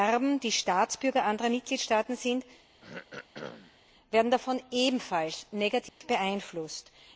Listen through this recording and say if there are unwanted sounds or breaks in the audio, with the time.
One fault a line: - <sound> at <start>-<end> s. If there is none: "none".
- throat clearing at 2.8-3.8 s
- dropout at 5.9-6.0 s